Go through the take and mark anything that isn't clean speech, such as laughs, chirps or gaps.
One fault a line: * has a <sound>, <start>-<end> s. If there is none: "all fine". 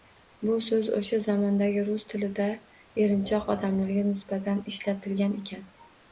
all fine